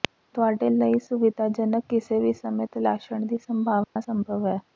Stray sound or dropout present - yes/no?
yes